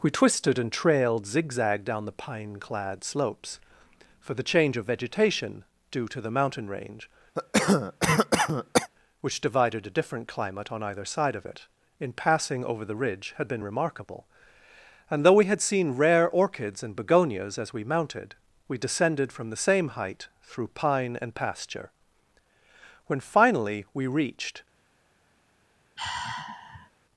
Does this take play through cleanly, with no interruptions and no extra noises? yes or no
no